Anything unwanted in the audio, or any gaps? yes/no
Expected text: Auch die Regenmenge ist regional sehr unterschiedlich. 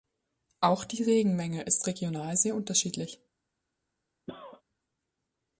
yes